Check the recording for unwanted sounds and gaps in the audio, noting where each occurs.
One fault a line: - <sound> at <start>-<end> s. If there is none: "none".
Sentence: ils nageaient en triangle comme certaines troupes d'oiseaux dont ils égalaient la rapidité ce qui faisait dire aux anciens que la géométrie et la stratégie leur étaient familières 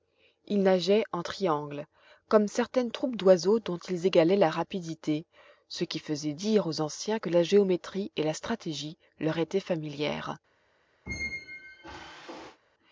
- squeak at 11.1-12.6 s